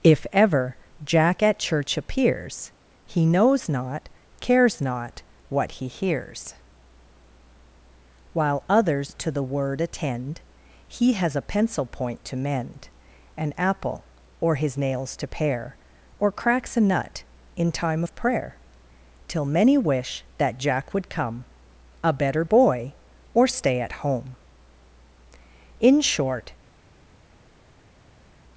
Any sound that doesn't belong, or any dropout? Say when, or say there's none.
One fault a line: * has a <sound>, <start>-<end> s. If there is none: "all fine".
all fine